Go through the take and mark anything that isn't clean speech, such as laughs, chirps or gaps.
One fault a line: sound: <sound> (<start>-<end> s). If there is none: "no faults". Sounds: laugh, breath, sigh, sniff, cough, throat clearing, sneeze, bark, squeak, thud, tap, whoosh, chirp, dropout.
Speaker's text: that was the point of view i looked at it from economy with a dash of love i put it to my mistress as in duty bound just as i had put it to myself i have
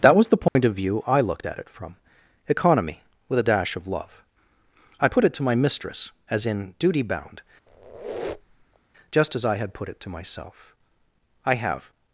sound: dropout (0.5-0.6 s)
sound: squeak (7.7-8.8 s)